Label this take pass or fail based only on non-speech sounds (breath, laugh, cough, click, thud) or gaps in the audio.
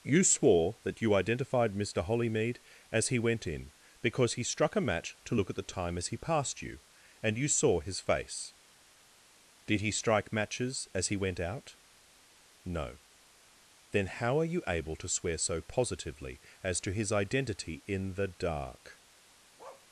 fail